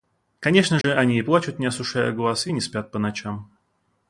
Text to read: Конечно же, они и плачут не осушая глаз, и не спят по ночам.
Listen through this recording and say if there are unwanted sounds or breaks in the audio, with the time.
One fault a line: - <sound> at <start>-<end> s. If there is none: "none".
- dropout at 0.8-0.8 s